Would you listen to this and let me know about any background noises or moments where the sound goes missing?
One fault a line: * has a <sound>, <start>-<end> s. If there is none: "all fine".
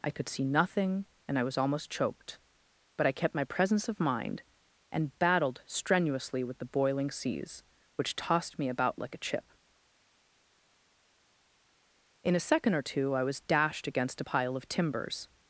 all fine